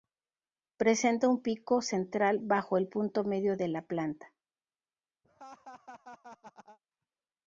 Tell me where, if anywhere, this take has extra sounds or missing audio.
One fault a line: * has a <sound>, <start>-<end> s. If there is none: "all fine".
* has a laugh, 5.2-6.8 s